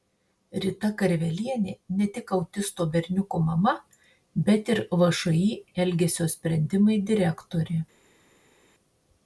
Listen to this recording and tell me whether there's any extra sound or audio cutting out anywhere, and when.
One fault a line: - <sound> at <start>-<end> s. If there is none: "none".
none